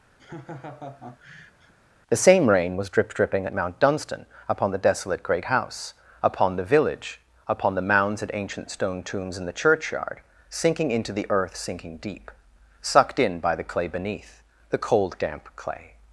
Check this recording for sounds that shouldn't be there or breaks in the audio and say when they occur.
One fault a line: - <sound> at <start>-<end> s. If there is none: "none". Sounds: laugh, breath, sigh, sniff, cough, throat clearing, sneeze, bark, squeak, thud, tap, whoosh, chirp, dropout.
- laugh at 0.2-1.7 s